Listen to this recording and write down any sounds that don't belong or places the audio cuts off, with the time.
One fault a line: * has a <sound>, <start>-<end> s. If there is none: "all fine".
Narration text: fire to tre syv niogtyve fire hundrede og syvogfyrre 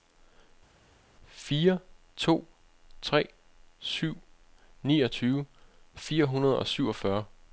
all fine